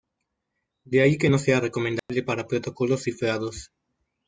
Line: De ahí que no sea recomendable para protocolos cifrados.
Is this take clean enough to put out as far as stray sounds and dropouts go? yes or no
no